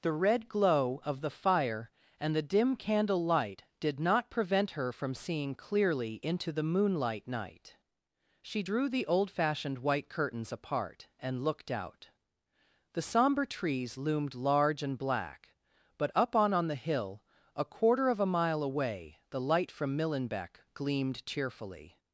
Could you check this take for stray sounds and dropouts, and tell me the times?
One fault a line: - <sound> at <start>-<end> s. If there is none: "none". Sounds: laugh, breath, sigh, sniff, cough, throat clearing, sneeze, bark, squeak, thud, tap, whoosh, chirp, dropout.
none